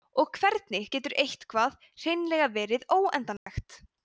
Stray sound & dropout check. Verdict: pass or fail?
fail